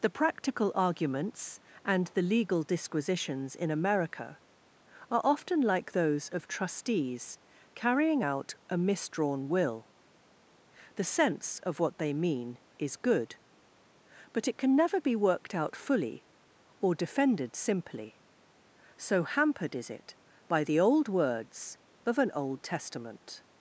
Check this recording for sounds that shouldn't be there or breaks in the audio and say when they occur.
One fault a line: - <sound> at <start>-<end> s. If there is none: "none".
none